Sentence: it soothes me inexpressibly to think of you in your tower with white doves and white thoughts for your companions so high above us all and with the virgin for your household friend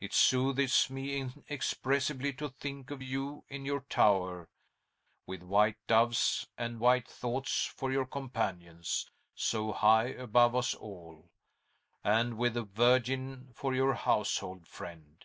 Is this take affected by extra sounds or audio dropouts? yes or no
no